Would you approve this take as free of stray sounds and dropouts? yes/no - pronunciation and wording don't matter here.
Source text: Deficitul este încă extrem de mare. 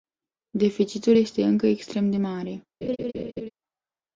no